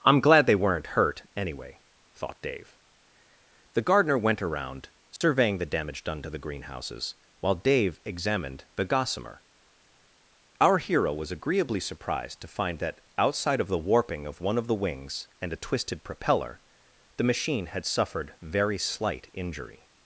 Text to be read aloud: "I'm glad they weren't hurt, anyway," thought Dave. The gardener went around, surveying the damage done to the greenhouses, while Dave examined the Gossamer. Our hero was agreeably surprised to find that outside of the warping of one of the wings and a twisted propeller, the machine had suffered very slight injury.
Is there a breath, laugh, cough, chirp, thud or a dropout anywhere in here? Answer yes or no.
yes